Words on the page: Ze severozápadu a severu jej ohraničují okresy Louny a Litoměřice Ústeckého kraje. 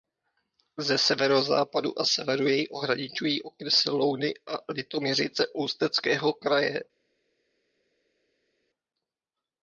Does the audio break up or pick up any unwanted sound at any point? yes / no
no